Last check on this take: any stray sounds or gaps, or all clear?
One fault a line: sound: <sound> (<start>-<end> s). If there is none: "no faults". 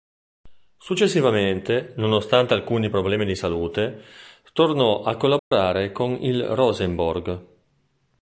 sound: dropout (5.4-5.5 s)